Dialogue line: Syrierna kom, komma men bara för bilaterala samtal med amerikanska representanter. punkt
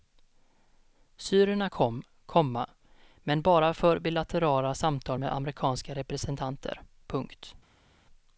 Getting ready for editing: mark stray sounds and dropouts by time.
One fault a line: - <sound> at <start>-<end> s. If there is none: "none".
none